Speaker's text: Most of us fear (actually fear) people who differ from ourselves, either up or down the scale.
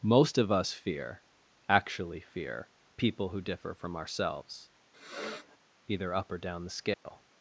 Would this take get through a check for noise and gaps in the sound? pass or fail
fail